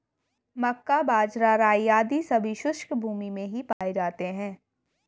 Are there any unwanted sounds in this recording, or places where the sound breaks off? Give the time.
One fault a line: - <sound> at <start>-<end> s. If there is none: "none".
- dropout at 3.7-3.8 s